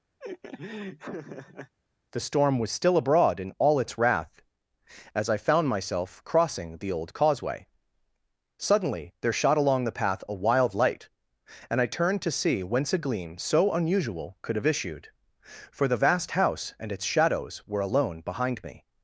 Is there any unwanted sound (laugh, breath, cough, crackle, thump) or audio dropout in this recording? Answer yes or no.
yes